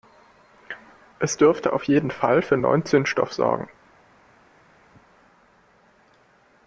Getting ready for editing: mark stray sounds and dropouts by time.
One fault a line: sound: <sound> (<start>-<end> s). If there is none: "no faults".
no faults